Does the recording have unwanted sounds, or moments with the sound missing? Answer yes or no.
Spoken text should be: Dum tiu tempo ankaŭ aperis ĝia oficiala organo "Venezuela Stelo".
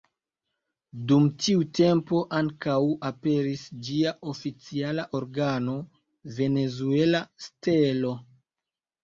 no